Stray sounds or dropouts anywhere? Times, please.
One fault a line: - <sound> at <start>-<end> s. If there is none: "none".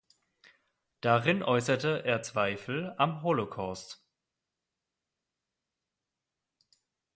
none